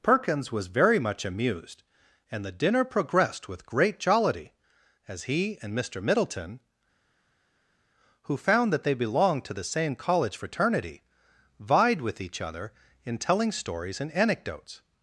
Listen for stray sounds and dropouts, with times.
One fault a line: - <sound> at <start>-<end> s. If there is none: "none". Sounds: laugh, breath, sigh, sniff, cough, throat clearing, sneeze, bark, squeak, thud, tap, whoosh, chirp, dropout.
none